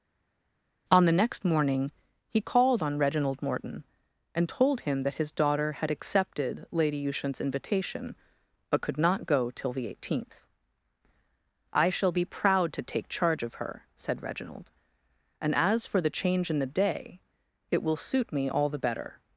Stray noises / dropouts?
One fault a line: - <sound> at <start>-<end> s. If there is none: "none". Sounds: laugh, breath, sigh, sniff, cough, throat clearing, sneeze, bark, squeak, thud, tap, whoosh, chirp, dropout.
none